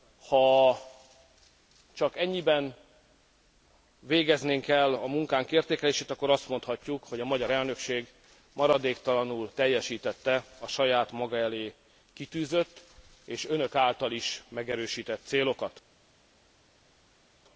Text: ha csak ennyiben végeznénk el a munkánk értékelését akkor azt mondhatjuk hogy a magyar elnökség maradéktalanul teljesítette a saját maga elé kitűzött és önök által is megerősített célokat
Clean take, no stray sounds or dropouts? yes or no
yes